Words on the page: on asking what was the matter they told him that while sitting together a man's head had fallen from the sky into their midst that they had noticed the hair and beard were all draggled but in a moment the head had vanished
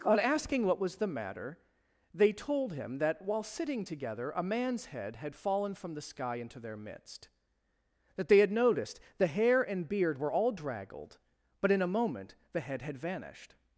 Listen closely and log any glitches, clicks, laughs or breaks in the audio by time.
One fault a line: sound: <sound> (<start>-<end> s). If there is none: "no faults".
no faults